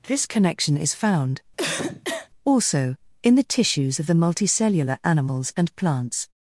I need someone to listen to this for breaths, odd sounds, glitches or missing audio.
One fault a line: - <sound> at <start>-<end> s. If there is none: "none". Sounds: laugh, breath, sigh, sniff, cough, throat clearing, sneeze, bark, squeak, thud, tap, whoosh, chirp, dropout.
- cough at 1.6-2.3 s